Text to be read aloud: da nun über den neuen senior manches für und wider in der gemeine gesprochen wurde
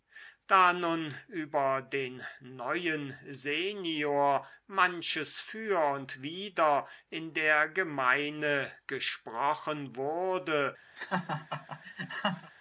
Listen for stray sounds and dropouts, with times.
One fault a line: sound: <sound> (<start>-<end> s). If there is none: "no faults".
sound: laugh (11.0-12.5 s)